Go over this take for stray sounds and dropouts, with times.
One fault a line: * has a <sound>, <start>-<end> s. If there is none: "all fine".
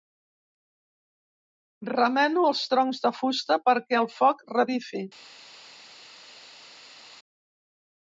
all fine